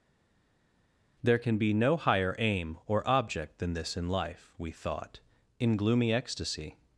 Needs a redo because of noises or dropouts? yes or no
no